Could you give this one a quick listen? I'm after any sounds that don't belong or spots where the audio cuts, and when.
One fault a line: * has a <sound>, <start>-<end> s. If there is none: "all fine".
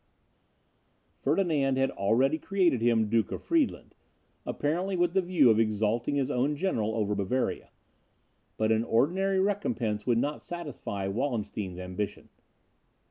all fine